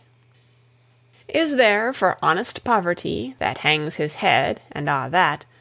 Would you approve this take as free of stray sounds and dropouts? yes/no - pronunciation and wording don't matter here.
yes